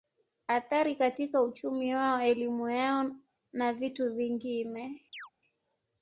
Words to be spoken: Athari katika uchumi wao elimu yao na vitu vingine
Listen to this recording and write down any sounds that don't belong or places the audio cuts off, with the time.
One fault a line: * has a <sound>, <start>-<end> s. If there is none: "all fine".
* has a chirp, 5.1-5.3 s